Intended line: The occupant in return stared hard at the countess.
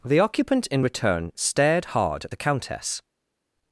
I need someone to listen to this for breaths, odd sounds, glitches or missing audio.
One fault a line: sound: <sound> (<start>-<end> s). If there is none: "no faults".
no faults